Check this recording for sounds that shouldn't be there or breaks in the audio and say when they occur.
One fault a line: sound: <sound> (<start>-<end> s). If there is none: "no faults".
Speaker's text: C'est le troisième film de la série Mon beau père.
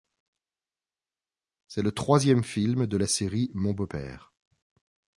no faults